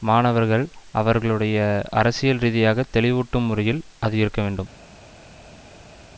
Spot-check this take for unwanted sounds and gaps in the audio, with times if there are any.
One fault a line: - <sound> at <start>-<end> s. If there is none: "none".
none